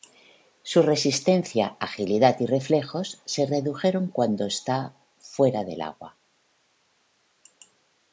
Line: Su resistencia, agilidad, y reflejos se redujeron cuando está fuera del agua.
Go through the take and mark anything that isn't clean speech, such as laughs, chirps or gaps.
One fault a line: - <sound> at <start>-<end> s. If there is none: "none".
none